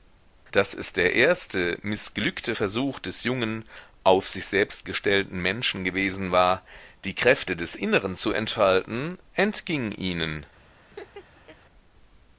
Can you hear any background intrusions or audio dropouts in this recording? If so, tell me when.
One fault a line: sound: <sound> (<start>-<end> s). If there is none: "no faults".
sound: laugh (10.9-11.6 s)